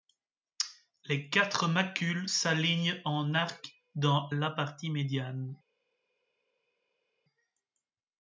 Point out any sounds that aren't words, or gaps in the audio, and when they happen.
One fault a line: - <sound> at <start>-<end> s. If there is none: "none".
none